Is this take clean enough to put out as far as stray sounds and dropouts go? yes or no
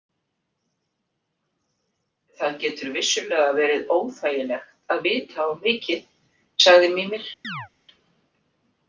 no